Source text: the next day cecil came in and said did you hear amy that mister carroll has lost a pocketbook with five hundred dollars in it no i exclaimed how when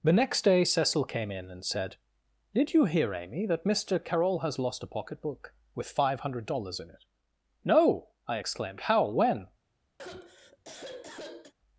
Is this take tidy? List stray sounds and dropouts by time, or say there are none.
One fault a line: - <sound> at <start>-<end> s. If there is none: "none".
- sigh at 10.0-11.5 s